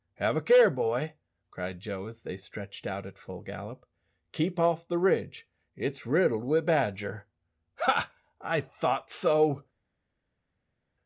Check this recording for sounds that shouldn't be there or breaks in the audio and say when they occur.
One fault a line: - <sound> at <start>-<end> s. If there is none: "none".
none